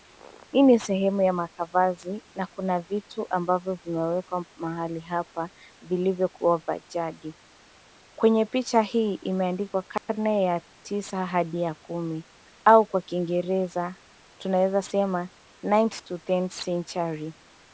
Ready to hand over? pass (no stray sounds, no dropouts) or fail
fail